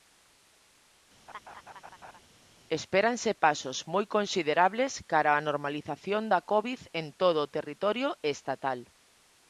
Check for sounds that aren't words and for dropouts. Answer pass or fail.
fail